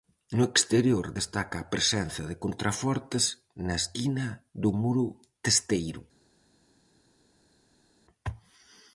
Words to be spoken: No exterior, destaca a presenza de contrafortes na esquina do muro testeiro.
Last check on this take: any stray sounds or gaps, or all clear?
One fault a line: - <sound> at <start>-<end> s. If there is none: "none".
none